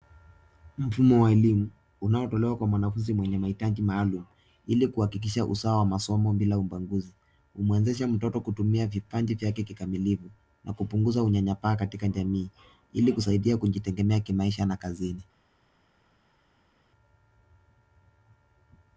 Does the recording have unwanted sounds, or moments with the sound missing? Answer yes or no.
no